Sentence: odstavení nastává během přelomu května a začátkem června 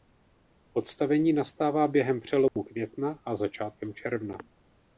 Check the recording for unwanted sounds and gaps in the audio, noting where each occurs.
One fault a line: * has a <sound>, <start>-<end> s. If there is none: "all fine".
* has a dropout, 2.5-2.6 s